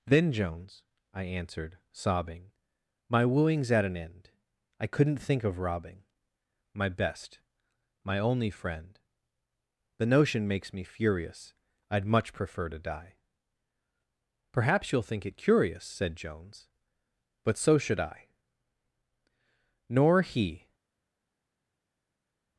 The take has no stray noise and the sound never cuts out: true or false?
true